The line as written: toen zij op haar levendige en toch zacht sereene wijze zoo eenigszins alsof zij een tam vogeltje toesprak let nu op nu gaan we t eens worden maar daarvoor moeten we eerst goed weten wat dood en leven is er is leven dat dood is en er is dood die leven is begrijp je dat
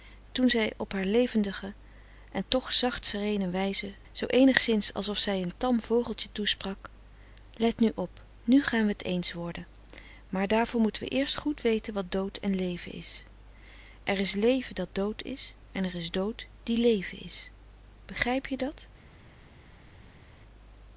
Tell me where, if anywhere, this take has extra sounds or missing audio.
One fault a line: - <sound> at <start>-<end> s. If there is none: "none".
none